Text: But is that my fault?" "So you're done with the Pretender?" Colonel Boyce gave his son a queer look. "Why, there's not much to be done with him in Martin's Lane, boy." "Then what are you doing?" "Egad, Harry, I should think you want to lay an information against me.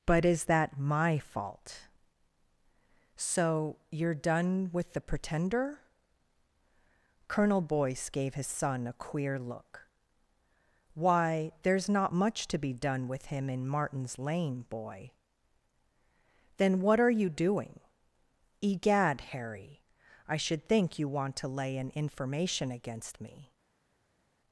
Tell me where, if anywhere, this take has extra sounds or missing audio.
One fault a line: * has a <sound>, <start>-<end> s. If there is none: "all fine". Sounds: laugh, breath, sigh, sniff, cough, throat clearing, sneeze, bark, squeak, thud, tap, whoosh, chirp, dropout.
all fine